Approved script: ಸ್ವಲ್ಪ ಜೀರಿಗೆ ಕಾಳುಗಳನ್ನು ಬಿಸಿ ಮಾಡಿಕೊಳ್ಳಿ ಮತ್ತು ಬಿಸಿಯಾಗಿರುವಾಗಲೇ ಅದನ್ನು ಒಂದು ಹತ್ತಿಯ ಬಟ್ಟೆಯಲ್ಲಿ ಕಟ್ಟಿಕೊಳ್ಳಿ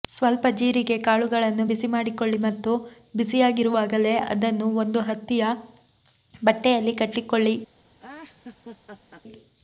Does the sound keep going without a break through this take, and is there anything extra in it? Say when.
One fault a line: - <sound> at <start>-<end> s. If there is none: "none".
- laugh at 8.0-9.2 s